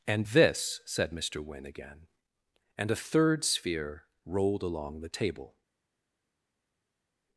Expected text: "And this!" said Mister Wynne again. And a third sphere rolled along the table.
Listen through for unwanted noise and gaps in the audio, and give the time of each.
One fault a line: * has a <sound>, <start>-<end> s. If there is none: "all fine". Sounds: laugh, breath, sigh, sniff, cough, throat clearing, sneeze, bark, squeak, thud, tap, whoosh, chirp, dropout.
all fine